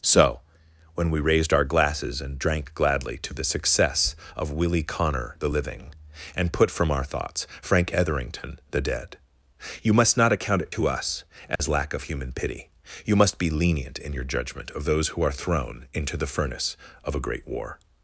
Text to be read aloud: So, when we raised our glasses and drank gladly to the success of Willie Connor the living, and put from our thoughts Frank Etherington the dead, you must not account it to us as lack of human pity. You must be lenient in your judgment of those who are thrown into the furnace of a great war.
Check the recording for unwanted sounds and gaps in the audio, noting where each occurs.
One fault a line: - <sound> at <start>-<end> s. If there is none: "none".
- dropout at 11.6-11.6 s